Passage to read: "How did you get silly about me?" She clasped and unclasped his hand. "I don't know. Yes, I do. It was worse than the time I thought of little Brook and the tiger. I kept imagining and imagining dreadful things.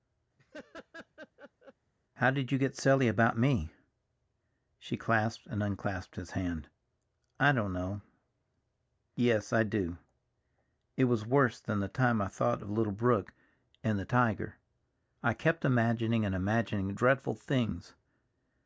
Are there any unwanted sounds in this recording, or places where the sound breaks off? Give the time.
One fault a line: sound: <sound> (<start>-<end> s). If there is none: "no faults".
sound: laugh (0.4-1.7 s)